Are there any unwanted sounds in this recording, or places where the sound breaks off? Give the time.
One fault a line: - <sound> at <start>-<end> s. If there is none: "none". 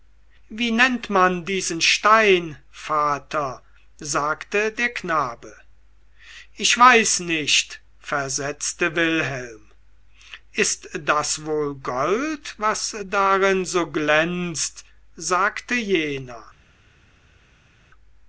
none